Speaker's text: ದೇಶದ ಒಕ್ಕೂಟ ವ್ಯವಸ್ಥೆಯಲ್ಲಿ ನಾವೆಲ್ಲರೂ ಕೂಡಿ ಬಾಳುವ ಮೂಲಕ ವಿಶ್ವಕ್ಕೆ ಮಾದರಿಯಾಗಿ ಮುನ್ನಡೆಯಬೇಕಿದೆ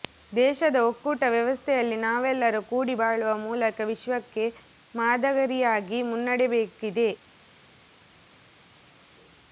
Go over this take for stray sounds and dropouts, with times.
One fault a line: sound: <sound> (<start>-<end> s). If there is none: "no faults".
no faults